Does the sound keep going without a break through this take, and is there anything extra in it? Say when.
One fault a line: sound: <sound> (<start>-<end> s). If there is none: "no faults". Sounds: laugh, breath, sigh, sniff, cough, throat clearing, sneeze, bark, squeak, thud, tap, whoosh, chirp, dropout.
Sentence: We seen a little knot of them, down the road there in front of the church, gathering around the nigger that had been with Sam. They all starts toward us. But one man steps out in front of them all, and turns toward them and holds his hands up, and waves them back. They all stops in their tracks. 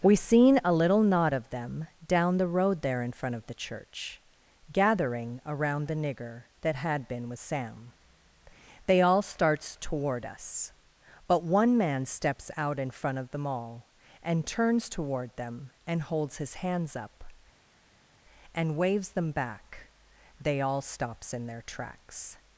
no faults